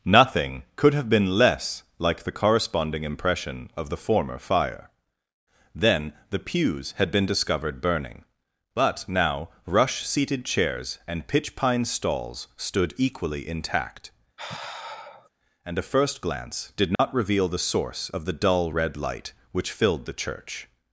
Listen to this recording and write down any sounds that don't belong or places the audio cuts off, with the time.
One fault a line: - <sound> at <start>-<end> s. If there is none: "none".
- sigh at 14.4-15.3 s
- dropout at 16.9-17.0 s